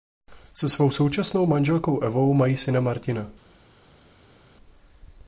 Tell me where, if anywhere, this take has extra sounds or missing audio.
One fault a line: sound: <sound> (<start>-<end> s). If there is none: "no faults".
no faults